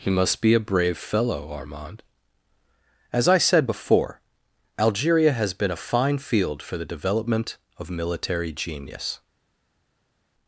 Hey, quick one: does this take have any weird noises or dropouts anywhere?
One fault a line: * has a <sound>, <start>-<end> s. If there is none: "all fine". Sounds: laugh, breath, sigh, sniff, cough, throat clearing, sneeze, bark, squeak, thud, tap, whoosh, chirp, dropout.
all fine